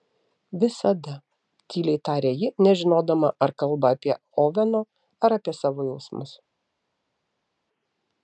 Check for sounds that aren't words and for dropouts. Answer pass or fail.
pass